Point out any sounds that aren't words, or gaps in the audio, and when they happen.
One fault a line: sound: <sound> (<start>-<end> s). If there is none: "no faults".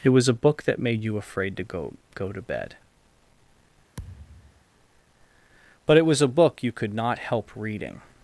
sound: thud (4.0-4.6 s)